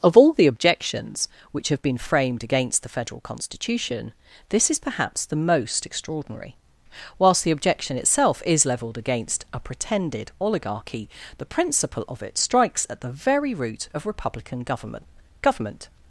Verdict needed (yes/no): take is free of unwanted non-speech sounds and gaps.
yes